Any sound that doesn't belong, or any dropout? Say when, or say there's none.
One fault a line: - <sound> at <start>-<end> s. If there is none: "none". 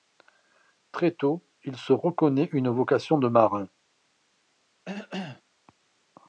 - cough at 4.8-5.4 s